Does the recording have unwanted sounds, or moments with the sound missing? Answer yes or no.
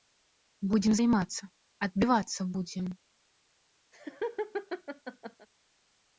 yes